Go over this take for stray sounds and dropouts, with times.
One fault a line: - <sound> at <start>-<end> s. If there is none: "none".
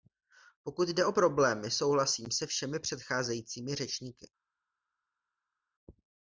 none